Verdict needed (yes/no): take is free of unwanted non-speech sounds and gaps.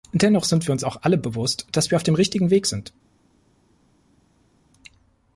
yes